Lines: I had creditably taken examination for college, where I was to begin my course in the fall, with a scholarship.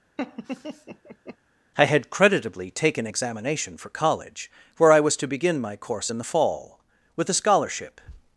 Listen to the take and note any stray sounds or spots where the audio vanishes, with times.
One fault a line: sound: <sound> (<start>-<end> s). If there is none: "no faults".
sound: laugh (0.2-1.4 s)